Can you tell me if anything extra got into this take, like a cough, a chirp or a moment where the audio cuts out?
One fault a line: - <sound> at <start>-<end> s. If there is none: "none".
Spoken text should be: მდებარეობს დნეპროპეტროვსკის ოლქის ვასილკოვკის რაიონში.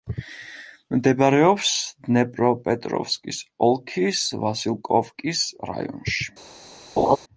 - laugh at 7.0-7.2 s